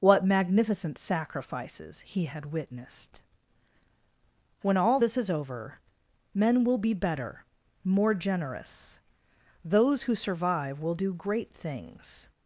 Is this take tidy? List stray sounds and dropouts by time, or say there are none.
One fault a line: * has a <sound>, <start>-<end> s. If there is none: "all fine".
all fine